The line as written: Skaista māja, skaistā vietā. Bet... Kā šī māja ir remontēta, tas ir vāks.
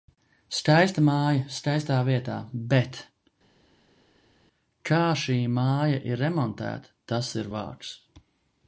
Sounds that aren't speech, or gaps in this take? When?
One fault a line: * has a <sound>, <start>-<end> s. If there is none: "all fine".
all fine